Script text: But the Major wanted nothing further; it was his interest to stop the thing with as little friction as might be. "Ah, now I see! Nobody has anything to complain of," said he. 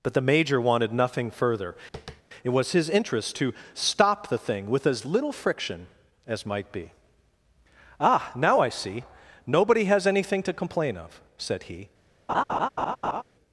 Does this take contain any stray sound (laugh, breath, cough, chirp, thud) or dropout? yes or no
yes